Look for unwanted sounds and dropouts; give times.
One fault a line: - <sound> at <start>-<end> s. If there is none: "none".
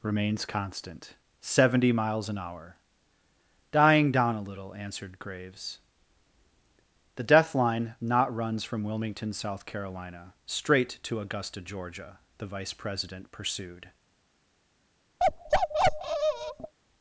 - bark at 15.2-16.7 s